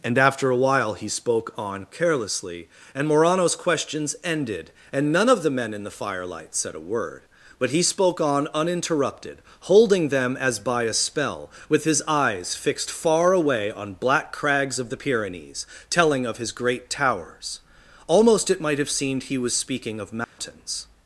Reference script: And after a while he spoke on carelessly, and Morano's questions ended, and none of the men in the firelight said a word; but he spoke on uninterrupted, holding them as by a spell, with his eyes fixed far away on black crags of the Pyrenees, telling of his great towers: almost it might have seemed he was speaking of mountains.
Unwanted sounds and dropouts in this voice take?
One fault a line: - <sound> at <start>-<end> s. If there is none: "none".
- dropout at 20.2-20.4 s